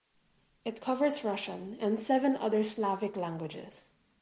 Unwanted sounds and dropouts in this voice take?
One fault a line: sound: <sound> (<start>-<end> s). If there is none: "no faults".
no faults